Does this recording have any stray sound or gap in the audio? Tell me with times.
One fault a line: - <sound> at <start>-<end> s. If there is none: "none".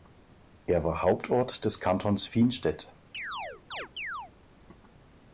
- chirp at 3.1-4.3 s